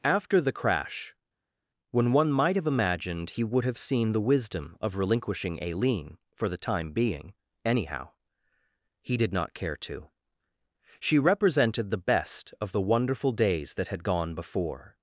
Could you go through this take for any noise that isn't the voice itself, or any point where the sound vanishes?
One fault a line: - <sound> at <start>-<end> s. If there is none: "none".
none